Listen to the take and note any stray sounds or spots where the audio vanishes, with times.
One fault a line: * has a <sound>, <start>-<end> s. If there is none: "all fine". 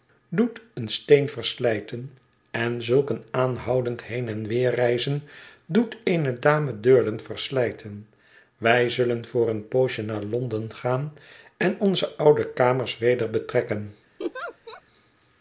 * has a laugh, 14.2-14.8 s